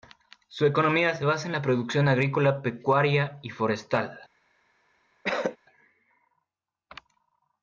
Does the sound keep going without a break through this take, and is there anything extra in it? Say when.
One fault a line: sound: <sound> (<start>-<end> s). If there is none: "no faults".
sound: cough (5.2-5.6 s)